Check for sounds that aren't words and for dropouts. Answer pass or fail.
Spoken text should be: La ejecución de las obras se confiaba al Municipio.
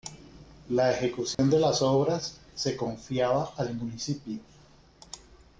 fail